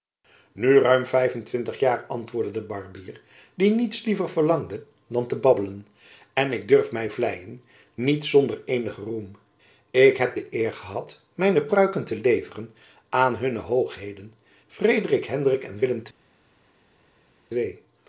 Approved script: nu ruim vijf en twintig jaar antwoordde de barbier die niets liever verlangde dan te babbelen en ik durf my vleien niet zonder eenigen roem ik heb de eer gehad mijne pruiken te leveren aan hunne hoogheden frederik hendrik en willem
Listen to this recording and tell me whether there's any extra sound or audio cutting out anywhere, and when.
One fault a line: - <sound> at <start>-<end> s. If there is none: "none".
none